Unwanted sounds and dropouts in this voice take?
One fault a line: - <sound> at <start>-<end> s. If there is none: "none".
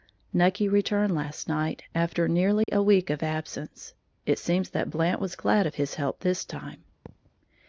- dropout at 2.6-2.7 s
- thud at 7.1-7.3 s